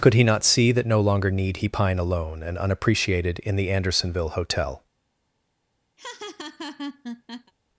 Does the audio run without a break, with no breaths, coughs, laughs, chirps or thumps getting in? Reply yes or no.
no